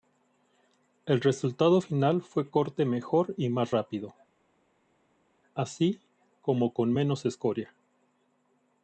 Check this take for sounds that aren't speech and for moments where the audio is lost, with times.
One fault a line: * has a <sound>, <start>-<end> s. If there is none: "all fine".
all fine